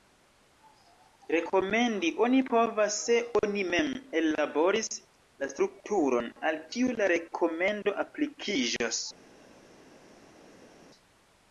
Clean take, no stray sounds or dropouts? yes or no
yes